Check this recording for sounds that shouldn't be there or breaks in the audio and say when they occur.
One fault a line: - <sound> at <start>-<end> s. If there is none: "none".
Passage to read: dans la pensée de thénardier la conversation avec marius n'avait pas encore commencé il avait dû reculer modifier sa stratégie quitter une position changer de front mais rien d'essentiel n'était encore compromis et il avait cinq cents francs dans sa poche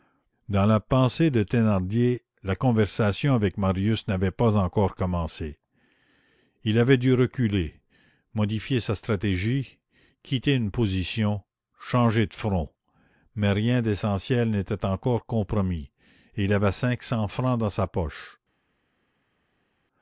none